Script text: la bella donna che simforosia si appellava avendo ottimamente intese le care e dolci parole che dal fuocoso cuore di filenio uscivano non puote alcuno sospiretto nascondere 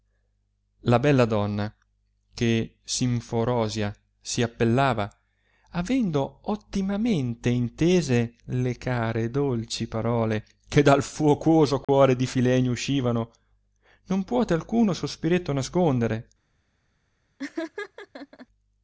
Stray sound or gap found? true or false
true